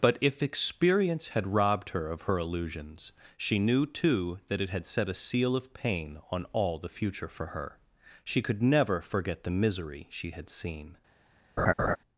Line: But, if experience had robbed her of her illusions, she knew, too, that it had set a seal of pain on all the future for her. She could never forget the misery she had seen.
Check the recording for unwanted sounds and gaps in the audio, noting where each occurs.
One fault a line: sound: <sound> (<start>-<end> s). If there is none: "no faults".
sound: laugh (11.6-12.0 s)